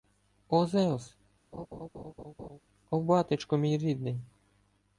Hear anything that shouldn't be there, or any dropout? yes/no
yes